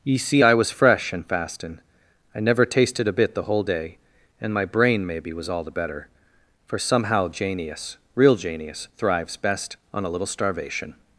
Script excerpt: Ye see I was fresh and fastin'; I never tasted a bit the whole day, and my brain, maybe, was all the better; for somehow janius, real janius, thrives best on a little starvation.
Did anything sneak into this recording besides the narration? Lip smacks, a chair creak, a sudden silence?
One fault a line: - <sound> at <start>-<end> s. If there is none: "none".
none